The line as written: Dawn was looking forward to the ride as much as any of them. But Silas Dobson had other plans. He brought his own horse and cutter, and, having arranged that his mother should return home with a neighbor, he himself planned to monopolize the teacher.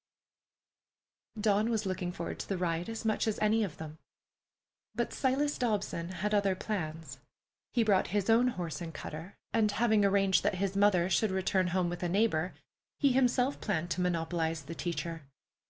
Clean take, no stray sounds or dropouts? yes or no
yes